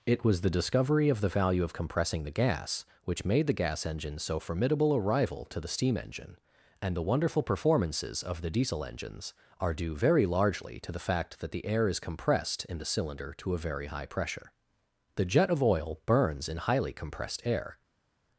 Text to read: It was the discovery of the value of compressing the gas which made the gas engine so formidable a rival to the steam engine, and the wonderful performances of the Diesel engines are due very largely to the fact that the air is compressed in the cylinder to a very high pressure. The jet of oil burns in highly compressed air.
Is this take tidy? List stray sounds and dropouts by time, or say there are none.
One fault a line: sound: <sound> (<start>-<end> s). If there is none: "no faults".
no faults